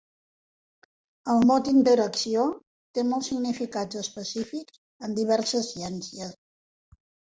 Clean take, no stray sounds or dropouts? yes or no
yes